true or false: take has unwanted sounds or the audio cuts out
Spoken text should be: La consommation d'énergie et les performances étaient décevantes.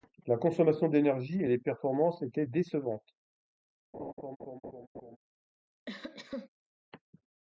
true